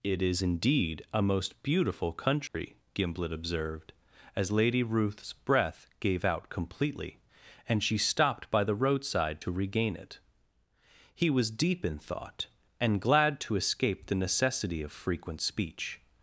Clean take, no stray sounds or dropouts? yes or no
no